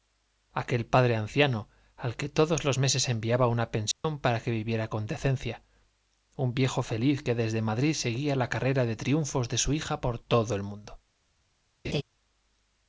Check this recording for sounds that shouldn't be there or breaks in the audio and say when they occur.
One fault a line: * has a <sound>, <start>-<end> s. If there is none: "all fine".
* has a dropout, 3.9-4.0 s
* has a laugh, 11.8-12.0 s